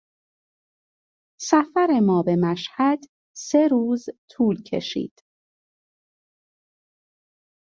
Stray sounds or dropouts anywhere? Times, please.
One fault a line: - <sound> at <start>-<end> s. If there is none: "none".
none